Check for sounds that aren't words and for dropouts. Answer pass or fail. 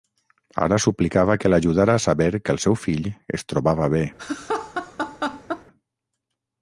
fail